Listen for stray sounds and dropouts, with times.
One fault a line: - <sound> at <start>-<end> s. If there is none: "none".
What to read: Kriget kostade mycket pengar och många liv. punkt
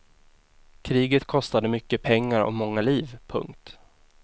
none